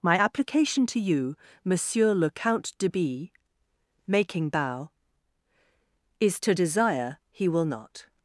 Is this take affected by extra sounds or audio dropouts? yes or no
no